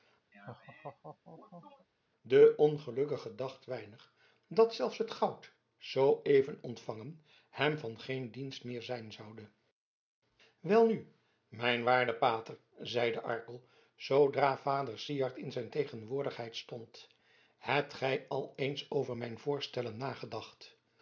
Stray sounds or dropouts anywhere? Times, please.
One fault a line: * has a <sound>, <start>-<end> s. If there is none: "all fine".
* has a laugh, 0.3-1.9 s